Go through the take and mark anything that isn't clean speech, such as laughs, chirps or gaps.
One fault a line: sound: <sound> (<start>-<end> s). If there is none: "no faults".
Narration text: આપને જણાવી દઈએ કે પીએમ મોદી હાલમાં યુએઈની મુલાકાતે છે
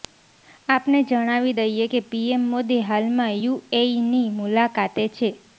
no faults